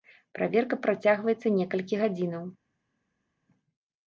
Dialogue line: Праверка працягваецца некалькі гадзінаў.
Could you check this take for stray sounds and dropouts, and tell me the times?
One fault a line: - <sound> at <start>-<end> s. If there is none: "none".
none